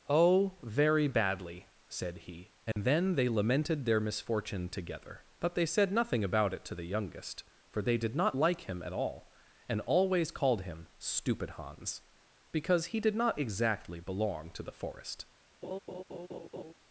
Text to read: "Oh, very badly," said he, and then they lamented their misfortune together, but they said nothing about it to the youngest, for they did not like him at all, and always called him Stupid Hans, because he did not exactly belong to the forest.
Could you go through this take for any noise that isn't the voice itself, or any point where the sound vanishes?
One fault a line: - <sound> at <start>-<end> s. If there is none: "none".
- dropout at 2.7-2.8 s
- laugh at 15.6-16.7 s